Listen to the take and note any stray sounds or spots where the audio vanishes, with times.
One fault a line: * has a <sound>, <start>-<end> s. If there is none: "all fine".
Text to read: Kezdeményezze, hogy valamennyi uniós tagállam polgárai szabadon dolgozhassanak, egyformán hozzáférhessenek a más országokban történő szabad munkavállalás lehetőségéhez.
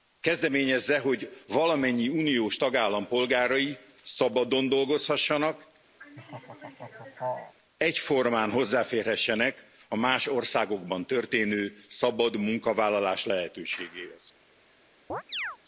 * has a laugh, 6.0-7.5 s
* has a chirp, 15.1-15.6 s